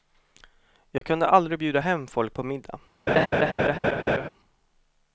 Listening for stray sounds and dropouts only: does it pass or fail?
fail